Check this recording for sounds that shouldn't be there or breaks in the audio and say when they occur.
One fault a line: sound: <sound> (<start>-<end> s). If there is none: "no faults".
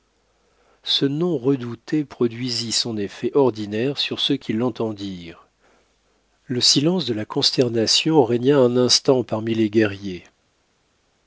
no faults